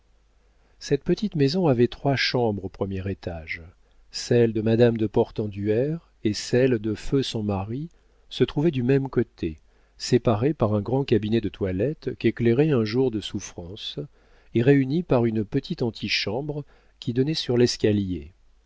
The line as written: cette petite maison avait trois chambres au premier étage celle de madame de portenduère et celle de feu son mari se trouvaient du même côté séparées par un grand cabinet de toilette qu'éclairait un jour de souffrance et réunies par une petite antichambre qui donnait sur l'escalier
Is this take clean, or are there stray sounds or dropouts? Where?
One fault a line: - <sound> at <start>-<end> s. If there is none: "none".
none